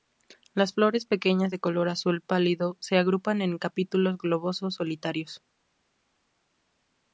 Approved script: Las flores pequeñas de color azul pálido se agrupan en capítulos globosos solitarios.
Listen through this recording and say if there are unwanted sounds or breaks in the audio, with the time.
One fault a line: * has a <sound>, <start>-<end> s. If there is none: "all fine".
all fine